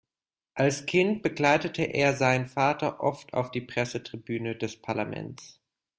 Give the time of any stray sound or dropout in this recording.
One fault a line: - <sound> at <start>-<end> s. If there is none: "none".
none